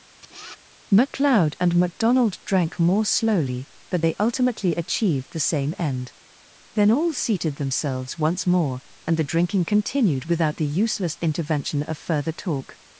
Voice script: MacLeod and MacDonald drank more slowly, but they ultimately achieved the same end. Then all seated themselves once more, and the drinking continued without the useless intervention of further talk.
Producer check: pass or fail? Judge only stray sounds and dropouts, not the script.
fail